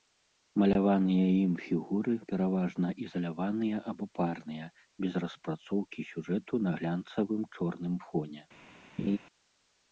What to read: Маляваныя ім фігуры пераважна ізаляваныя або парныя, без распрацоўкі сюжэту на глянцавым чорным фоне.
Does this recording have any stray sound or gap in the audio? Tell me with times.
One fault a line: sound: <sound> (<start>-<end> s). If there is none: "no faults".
sound: laugh (9.0-9.2 s)